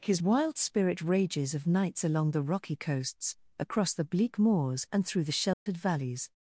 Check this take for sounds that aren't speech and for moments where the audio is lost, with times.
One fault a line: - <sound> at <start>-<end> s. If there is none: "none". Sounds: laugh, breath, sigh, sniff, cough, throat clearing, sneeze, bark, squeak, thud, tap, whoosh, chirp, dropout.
- dropout at 5.5-5.7 s